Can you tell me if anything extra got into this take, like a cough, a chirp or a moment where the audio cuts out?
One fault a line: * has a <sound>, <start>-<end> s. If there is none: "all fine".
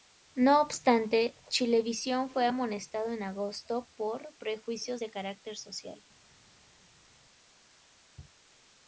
all fine